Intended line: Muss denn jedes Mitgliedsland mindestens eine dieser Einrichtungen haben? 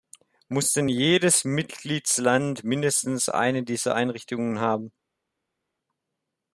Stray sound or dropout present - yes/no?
no